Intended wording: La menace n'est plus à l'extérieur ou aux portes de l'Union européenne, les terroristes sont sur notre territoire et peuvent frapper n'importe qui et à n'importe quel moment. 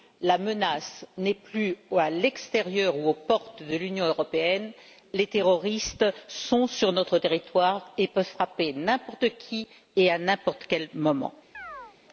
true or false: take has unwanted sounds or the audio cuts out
true